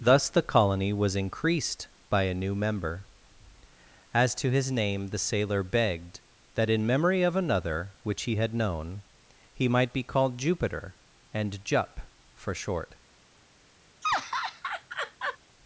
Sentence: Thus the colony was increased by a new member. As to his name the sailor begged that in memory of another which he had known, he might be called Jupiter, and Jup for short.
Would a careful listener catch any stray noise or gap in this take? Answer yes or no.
yes